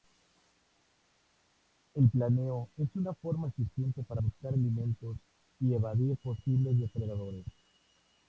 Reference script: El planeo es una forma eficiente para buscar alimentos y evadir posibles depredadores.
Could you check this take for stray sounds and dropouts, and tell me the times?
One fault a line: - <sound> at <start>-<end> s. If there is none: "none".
none